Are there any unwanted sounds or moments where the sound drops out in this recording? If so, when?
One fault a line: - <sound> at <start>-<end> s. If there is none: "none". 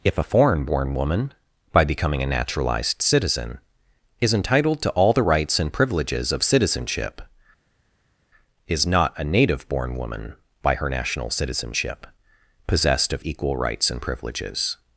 none